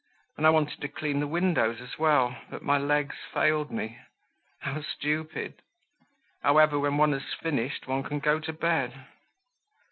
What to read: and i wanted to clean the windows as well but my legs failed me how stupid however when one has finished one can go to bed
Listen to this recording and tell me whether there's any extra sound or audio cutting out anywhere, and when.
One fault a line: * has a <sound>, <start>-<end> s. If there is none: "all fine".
all fine